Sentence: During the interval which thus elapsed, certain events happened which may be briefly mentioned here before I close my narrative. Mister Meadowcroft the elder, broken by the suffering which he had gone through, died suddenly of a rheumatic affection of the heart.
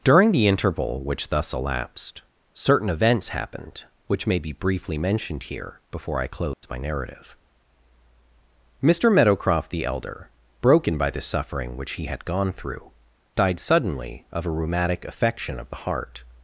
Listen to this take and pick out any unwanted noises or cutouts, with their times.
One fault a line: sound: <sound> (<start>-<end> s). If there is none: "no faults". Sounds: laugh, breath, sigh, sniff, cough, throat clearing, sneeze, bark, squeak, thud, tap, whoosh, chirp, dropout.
sound: dropout (6.5-6.6 s)